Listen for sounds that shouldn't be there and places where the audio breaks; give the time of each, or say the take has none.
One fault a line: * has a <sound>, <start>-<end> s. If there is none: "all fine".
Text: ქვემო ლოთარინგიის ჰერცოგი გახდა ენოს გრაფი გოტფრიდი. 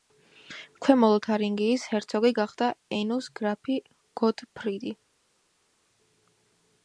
all fine